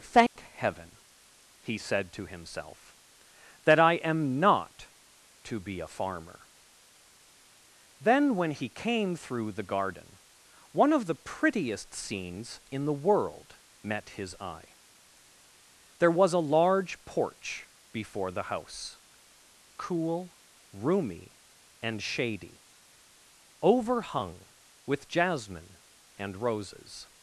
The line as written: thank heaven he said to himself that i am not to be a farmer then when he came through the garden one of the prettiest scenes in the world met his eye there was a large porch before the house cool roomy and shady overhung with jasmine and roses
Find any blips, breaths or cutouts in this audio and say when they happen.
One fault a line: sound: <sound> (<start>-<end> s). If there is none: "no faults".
sound: dropout (0.3-0.4 s)